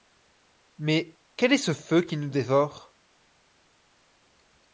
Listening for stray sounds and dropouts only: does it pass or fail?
pass